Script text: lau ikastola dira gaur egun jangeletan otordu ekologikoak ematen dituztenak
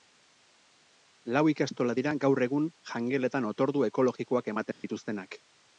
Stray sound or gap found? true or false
true